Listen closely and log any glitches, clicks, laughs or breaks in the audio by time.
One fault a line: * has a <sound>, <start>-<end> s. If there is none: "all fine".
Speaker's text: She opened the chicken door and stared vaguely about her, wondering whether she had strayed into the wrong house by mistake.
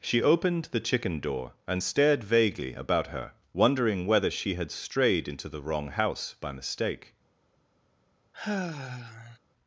* has a sigh, 8.3-9.4 s